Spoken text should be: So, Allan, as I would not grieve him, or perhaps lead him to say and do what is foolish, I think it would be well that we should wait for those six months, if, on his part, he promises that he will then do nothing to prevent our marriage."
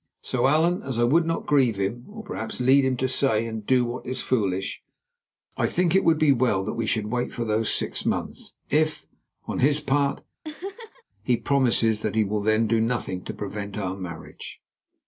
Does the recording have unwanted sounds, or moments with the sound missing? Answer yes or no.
yes